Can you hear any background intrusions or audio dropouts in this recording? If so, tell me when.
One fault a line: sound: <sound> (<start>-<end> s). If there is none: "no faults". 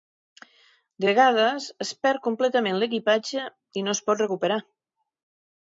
no faults